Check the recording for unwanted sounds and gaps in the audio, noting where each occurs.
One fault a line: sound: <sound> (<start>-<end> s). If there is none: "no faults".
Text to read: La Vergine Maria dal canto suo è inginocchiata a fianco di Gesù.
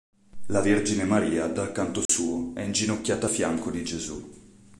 sound: dropout (2.1-2.1 s)